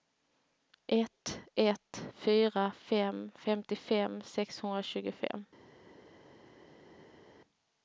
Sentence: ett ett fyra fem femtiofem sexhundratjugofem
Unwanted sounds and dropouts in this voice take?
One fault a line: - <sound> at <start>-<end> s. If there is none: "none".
none